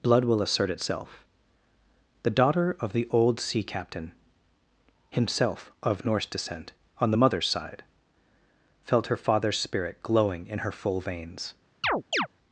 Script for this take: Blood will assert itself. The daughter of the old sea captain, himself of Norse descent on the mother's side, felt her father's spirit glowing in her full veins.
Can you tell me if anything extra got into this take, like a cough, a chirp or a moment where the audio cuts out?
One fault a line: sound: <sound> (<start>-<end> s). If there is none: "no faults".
sound: chirp (11.8-12.3 s)